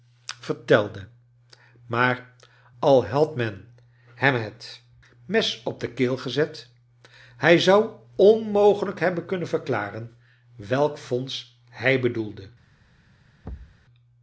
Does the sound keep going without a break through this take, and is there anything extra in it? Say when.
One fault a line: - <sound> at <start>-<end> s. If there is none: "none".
- thud at 13.4-13.8 s